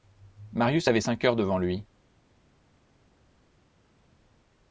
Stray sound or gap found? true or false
false